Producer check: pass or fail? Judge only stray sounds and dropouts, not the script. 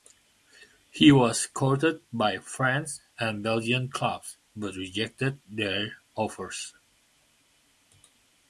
pass